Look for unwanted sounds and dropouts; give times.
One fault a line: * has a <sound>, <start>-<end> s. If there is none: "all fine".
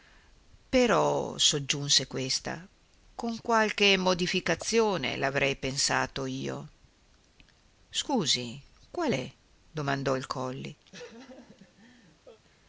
* has a laugh, 10.9-12.4 s